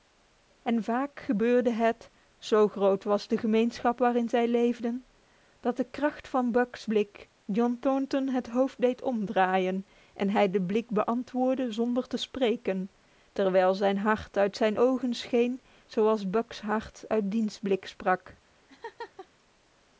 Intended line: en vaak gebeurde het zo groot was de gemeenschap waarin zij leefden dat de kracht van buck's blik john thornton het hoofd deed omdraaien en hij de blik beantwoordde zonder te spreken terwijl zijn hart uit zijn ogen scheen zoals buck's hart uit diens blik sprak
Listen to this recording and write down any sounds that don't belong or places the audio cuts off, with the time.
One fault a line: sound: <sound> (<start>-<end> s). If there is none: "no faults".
sound: laugh (18.7-19.3 s)